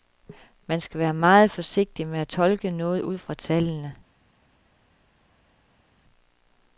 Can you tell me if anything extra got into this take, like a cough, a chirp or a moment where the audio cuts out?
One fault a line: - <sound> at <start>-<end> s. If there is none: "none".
none